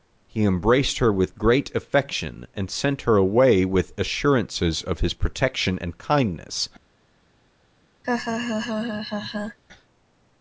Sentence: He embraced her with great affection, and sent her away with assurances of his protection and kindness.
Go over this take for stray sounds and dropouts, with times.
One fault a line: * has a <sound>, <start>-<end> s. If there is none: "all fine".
* has a laugh, 8.0-9.6 s